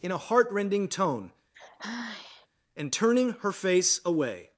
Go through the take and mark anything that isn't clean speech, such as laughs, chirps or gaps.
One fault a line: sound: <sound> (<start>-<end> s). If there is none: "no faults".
sound: sigh (1.5-2.5 s)